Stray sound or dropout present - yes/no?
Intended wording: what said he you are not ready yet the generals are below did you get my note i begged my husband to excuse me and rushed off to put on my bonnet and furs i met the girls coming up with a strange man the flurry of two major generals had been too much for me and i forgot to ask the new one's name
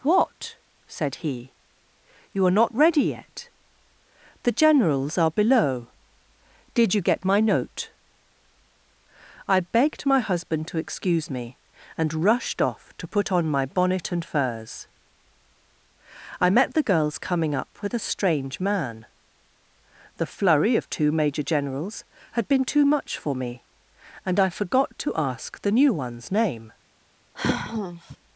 yes